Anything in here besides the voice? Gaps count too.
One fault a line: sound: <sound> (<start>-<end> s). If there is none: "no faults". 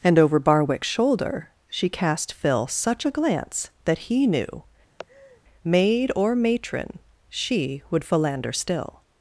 sound: laugh (5.0-5.4 s)